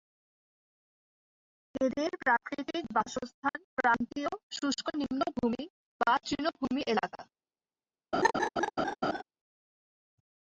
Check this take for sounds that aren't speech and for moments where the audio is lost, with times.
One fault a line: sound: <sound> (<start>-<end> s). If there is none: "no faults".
sound: dropout (3.5-3.5 s)
sound: laugh (8.1-9.2 s)